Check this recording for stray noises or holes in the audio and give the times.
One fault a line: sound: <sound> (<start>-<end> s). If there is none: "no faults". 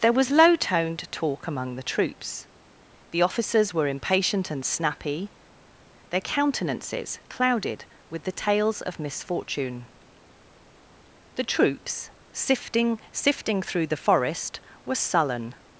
no faults